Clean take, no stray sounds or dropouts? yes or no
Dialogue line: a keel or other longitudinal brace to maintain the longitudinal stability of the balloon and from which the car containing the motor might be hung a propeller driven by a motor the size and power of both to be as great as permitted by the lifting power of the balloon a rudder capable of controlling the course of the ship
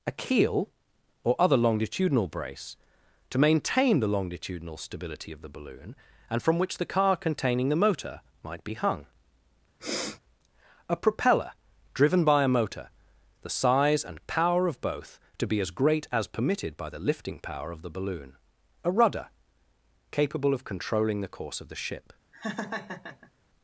no